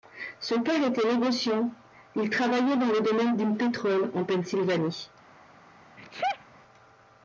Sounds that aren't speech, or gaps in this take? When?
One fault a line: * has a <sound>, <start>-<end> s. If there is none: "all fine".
* has a sneeze, 6.0-6.5 s